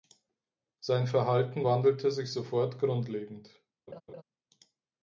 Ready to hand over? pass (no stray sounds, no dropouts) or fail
fail